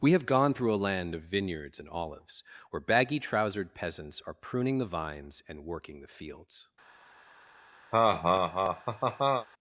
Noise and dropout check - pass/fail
fail